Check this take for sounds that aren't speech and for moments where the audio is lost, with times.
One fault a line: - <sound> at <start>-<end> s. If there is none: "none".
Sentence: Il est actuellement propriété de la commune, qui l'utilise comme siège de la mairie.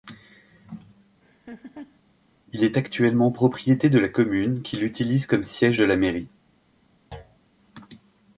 - laugh at 1.2-2.0 s
- thud at 7.1-7.4 s